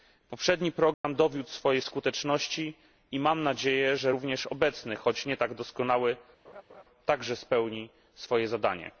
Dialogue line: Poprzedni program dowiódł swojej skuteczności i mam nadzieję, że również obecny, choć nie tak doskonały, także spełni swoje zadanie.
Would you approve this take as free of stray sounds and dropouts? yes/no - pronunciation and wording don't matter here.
no